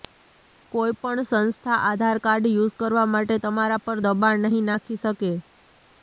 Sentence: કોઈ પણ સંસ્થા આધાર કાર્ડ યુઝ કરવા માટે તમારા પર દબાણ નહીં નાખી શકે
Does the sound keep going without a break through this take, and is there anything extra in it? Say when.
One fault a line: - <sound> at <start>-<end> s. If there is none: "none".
none